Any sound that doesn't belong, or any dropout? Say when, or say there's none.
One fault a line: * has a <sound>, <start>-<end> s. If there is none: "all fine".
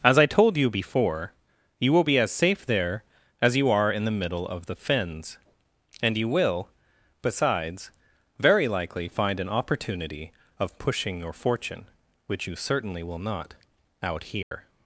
* has a dropout, 14.4-14.5 s